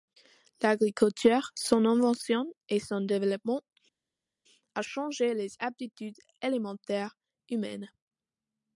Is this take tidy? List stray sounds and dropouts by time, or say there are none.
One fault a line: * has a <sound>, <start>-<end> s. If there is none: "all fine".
all fine